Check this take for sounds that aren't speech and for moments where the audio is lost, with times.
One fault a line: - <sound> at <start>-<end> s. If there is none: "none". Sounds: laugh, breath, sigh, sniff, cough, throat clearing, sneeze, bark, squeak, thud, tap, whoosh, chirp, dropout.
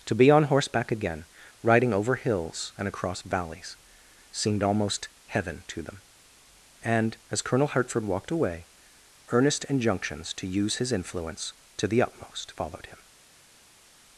none